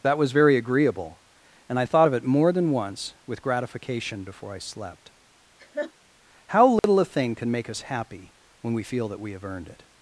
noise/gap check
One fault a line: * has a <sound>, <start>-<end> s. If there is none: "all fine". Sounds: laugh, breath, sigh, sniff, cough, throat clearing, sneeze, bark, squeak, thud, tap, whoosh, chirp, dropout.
* has a laugh, 5.6-5.9 s
* has a dropout, 6.8-6.8 s